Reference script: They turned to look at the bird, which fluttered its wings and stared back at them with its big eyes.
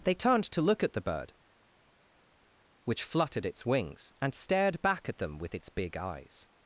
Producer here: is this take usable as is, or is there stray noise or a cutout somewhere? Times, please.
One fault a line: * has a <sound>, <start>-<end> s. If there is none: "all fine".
all fine